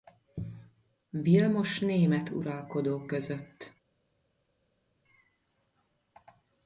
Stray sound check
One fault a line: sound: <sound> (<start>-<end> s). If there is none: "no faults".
no faults